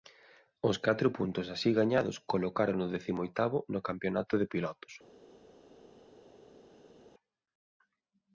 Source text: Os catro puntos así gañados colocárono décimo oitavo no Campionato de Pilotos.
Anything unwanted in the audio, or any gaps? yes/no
no